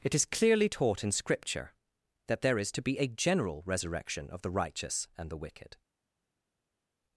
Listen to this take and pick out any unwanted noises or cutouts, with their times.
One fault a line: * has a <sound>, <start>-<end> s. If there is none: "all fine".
all fine